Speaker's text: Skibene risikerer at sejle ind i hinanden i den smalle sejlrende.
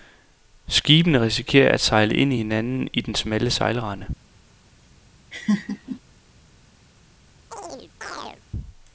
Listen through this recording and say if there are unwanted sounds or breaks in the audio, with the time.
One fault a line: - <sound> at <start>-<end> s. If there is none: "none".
- laugh at 5.3-6.0 s
- chirp at 7.5-8.4 s